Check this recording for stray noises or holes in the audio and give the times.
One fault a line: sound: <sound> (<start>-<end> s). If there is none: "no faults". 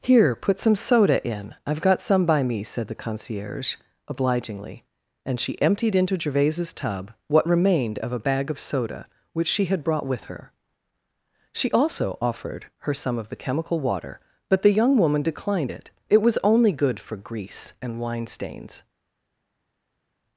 no faults